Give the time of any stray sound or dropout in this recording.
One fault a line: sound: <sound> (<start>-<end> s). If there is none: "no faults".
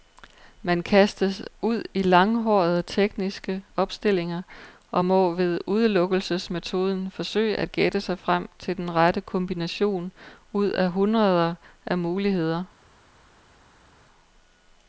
no faults